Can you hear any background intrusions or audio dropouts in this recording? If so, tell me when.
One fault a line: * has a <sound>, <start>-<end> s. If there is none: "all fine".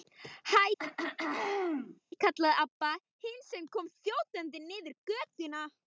* has a throat clearing, 0.8-2.0 s